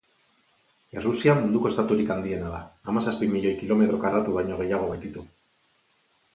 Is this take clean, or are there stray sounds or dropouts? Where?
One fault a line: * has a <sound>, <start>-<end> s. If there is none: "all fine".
all fine